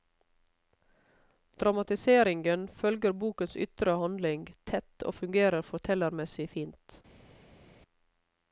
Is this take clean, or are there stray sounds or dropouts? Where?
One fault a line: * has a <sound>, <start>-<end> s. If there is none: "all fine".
all fine